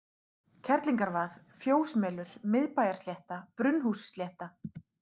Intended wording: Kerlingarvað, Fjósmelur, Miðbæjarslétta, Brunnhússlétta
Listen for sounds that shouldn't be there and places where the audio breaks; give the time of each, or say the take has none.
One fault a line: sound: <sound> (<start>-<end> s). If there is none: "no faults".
no faults